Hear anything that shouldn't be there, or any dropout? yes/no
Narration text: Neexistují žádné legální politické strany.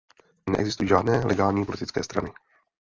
no